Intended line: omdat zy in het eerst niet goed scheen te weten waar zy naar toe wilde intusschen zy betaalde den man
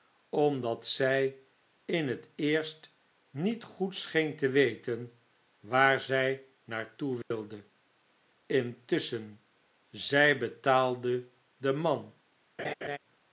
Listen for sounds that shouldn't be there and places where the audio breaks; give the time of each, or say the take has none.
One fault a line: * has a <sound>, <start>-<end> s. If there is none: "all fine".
* has a dropout, 7.2-7.3 s
* has a laugh, 12.6-13.0 s